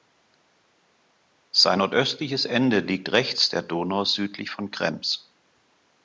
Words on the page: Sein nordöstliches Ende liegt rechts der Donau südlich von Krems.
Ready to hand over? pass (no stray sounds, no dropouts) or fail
pass